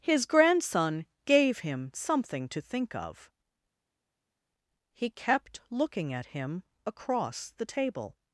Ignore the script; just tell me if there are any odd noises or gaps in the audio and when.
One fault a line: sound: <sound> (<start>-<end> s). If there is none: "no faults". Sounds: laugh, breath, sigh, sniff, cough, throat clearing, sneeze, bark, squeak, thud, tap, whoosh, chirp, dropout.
no faults